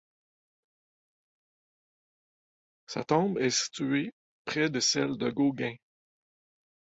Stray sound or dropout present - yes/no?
no